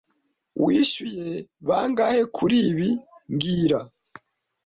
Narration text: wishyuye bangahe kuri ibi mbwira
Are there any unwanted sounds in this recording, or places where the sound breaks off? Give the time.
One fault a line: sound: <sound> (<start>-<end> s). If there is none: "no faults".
no faults